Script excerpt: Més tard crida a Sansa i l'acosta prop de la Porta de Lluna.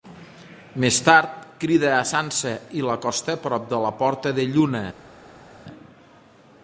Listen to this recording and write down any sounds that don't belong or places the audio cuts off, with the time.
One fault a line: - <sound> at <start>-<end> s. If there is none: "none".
none